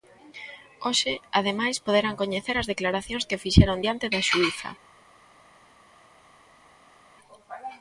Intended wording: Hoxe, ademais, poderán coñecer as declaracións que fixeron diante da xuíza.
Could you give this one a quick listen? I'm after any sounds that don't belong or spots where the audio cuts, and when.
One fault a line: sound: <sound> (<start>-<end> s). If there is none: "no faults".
no faults